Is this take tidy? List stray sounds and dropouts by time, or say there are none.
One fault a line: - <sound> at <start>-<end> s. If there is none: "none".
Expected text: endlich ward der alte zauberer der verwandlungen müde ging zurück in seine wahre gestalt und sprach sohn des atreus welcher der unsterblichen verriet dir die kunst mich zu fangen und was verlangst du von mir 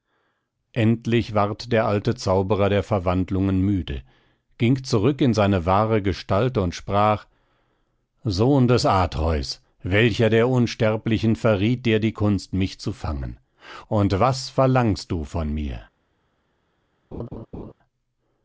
- laugh at 17.1-17.7 s